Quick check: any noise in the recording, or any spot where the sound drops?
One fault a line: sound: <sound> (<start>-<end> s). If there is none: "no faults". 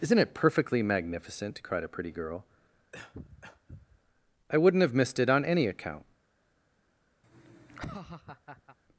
sound: cough (2.9-4.0 s)
sound: laugh (7.2-8.8 s)